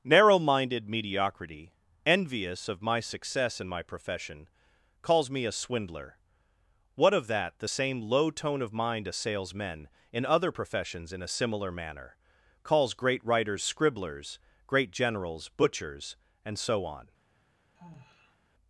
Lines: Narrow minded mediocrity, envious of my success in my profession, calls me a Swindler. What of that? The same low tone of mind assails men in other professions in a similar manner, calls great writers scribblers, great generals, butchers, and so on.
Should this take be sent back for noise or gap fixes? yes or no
yes